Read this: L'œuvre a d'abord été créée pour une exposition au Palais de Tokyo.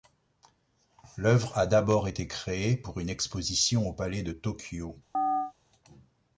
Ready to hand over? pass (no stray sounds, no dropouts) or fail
fail